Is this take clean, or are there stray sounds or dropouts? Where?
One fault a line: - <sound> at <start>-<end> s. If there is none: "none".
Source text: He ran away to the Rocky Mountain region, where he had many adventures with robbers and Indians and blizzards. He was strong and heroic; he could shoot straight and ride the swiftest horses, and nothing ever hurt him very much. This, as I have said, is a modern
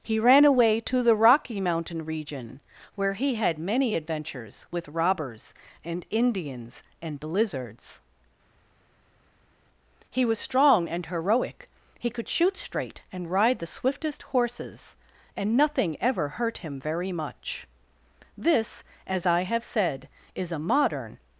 none